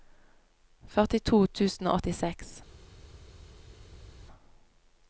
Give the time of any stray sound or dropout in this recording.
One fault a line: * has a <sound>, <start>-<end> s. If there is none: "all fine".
all fine